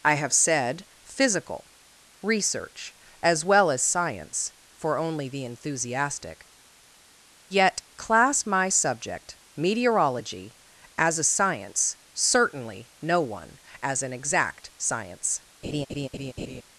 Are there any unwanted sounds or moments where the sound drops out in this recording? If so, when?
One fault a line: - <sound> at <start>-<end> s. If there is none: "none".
- laugh at 15.6-16.6 s